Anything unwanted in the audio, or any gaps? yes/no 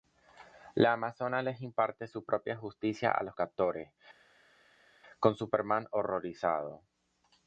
no